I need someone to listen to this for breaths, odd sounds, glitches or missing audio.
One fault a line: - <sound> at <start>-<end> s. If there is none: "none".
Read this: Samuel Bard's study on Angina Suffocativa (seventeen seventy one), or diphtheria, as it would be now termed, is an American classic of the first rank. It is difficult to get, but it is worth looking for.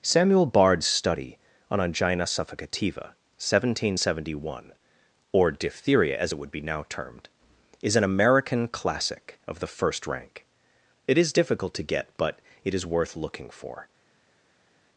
none